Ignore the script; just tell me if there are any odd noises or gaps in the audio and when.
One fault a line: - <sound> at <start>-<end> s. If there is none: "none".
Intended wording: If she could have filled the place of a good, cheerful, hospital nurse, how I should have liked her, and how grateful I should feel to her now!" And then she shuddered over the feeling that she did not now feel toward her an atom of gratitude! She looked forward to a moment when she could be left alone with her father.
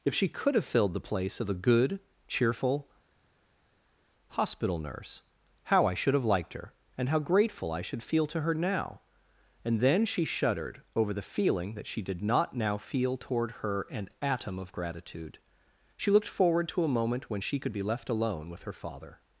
none